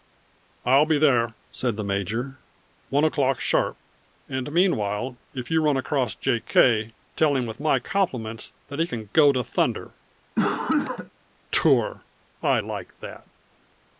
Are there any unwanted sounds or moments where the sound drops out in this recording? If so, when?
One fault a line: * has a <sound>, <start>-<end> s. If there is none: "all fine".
* has a cough, 10.4-11.1 s